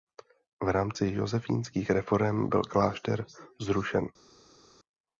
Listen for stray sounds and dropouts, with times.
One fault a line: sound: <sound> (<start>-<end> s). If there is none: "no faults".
no faults